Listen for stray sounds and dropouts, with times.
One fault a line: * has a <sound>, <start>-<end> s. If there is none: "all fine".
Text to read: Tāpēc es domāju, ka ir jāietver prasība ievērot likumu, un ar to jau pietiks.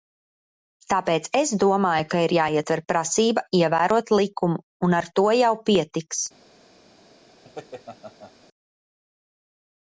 * has a laugh, 7.4-8.3 s